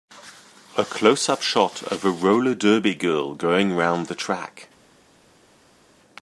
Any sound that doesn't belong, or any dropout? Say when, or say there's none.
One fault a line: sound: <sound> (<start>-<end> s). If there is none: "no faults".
no faults